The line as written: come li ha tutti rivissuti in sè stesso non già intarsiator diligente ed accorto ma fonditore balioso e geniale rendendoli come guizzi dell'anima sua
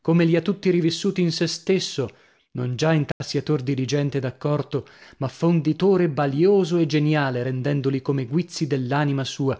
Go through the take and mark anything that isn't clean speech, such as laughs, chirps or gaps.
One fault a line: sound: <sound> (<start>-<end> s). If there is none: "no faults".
sound: dropout (3.1-3.2 s)